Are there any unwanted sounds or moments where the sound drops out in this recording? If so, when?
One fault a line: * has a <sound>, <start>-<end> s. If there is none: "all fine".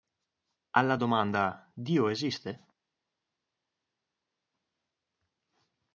all fine